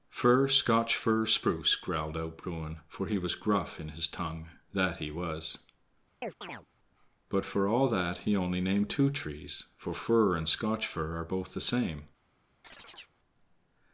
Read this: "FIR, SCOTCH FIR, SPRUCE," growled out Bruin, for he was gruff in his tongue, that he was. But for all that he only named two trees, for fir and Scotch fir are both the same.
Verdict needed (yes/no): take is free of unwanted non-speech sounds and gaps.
no